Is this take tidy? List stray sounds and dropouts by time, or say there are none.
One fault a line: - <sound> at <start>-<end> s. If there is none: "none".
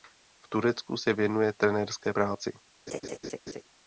- laugh at 2.9-3.6 s